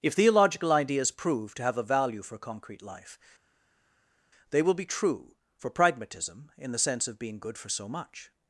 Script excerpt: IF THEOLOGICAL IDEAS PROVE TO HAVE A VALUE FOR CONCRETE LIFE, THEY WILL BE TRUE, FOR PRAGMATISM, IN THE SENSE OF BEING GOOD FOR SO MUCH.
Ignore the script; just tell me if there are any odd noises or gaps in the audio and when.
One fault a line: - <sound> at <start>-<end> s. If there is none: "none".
none